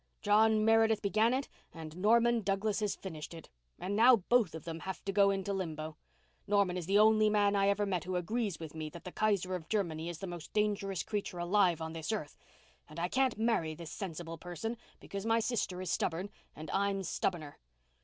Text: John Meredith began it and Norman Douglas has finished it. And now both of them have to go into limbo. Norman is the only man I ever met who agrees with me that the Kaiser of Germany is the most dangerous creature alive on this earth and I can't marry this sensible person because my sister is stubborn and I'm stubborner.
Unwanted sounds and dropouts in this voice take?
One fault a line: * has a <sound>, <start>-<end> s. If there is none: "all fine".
all fine